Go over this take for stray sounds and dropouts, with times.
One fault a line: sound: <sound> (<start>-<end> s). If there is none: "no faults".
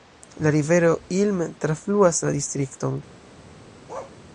sound: bark (3.9-4.2 s)